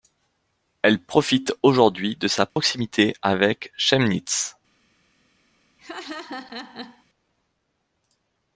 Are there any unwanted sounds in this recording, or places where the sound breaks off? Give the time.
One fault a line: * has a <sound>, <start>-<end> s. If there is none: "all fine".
* has a dropout, 2.5-2.6 s
* has a laugh, 5.8-7.0 s